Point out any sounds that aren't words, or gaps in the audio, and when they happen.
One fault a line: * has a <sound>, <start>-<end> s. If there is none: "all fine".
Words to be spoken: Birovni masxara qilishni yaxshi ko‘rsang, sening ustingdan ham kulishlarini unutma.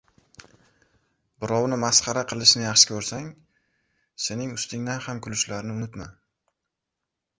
all fine